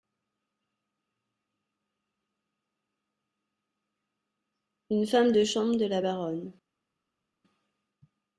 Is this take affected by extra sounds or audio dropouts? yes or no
no